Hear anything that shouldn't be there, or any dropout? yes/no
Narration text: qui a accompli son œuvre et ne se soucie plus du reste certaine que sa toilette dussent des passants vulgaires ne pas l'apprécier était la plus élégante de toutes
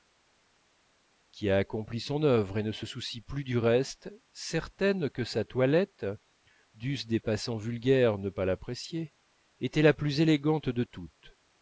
no